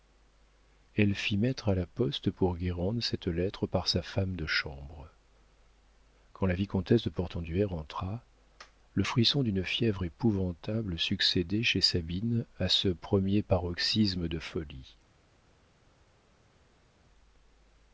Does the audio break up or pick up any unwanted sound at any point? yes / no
no